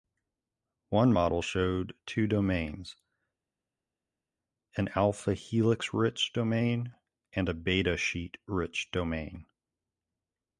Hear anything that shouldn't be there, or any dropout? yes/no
no